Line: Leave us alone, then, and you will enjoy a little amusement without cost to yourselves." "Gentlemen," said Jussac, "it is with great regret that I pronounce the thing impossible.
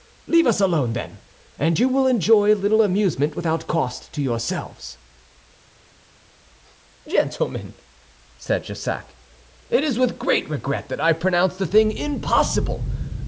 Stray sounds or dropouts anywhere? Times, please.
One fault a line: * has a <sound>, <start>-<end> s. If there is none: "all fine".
all fine